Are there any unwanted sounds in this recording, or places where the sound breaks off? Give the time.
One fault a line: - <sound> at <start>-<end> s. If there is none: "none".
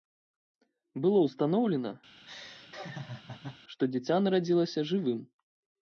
- laugh at 2.2-3.6 s